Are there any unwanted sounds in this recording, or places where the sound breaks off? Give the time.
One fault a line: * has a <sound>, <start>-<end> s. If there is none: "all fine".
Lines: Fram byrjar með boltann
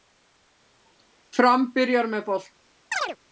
* has a chirp, 2.9-3.2 s